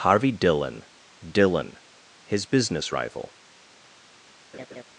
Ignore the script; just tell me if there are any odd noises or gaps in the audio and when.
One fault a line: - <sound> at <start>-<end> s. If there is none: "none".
- laugh at 4.5-4.8 s